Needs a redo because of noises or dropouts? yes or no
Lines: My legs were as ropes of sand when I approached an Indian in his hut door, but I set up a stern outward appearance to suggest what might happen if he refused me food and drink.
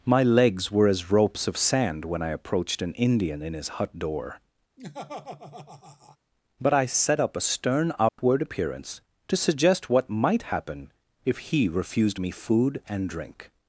yes